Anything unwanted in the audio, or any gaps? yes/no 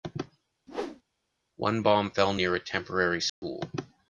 yes